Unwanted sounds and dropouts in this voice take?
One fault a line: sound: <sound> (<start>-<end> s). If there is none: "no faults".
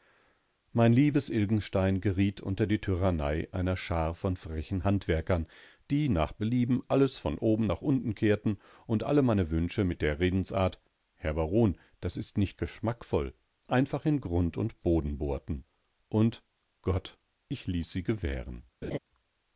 sound: laugh (18.8-19.0 s)